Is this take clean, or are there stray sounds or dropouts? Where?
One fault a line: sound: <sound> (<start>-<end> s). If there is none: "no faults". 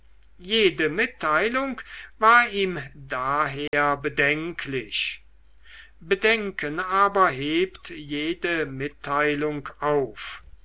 sound: dropout (3.7-3.7 s)